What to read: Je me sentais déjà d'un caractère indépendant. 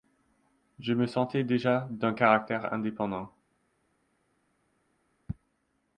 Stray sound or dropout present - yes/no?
no